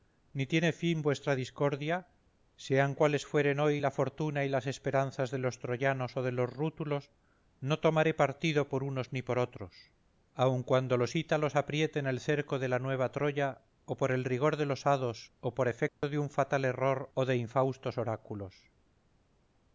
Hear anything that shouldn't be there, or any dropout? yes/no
yes